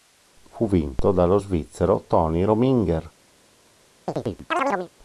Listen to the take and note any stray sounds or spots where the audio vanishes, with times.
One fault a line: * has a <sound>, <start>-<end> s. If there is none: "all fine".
* has a chirp, 4.1-4.9 s